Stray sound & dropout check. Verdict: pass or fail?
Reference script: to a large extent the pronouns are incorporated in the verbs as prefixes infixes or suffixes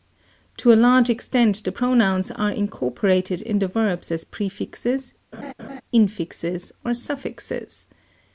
fail